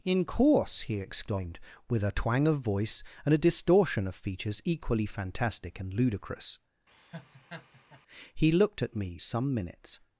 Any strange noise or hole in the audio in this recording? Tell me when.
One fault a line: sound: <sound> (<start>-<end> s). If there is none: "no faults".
sound: laugh (6.9-8.0 s)